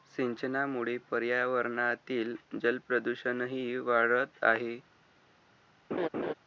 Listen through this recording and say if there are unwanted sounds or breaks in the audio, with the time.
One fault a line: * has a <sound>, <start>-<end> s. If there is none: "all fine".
* has a laugh, 5.9-6.3 s